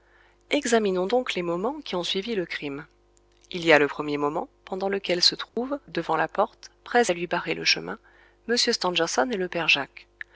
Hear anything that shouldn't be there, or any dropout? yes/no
yes